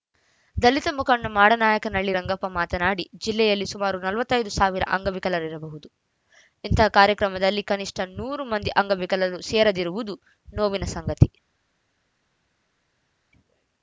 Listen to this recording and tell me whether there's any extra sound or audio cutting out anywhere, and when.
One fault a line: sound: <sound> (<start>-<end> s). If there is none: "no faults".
no faults